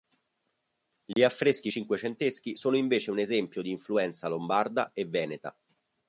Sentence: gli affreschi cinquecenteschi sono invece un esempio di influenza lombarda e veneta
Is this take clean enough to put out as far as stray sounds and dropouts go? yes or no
no